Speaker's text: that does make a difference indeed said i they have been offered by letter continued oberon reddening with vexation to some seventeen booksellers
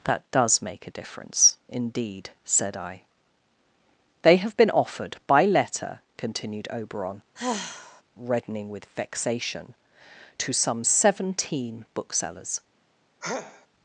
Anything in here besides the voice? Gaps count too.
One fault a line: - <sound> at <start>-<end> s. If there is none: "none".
- sigh at 7.4-8.0 s
- sneeze at 13.2-13.7 s